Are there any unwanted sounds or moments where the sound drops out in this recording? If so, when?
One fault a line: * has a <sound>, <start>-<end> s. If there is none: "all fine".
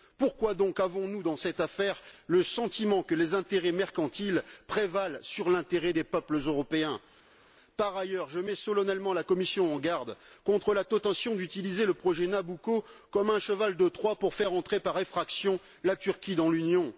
all fine